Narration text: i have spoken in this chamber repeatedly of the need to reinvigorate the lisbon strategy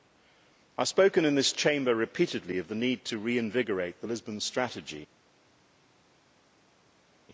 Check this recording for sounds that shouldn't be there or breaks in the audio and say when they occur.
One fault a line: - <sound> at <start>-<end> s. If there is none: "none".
none